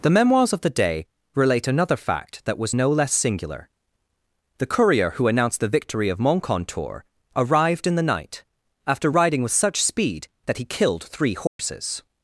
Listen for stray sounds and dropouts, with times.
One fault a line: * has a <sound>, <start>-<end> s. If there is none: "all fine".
* has a dropout, 11.5-11.6 s